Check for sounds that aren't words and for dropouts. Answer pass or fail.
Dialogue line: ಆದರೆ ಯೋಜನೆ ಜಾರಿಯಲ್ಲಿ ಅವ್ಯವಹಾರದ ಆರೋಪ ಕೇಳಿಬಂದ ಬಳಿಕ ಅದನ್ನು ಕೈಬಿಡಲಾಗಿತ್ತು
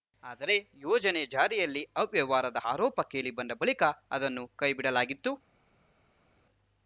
pass